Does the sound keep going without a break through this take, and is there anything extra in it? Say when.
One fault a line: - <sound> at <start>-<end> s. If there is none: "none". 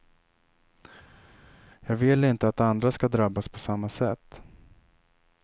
none